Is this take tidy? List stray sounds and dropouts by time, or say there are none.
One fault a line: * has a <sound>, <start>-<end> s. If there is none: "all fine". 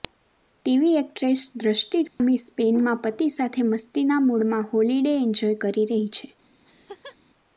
* has a dropout, 2.1-2.2 s
* has a laugh, 6.6-7.2 s